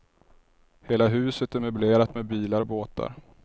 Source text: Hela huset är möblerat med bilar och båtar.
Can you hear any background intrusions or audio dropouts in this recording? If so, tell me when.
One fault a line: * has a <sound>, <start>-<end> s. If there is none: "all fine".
all fine